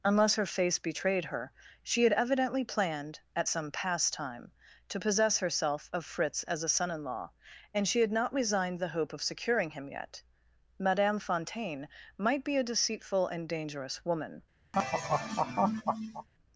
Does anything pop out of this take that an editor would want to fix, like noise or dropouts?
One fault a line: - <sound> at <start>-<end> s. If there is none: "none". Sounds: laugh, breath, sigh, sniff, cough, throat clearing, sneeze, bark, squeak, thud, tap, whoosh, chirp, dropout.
- laugh at 14.7-16.3 s